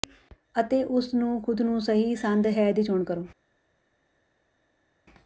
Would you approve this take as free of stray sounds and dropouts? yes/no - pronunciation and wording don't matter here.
yes